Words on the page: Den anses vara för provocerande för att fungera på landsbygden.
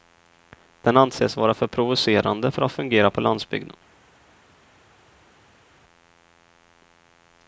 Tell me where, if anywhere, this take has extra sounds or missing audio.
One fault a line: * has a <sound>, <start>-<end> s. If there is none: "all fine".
all fine